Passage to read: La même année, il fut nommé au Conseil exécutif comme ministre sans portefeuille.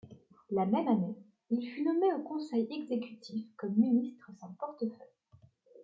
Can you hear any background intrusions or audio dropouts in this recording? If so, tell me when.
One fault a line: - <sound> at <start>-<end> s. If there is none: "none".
none